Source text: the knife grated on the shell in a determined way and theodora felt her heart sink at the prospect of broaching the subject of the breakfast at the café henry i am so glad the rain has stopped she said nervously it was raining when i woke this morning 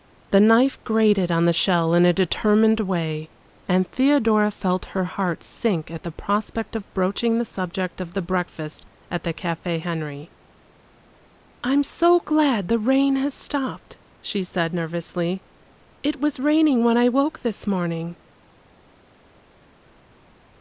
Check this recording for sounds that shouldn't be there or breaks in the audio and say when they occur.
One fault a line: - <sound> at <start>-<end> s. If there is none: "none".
none